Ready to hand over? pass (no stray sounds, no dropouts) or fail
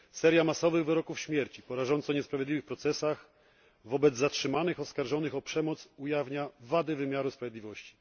pass